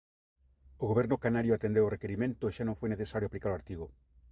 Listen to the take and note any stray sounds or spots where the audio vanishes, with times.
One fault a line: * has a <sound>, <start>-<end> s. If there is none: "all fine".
all fine